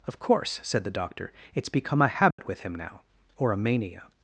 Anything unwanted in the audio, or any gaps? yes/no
yes